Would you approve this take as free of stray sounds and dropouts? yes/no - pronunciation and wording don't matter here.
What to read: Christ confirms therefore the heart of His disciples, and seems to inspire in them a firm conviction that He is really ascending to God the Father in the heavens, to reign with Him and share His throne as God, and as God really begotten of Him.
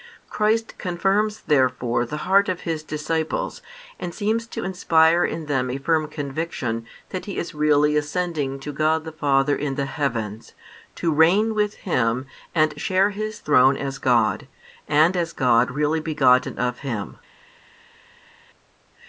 yes